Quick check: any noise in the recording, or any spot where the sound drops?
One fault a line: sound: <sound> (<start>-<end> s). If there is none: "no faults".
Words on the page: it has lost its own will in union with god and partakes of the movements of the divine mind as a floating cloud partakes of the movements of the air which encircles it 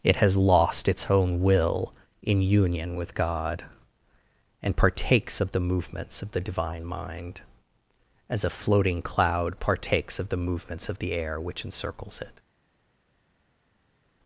no faults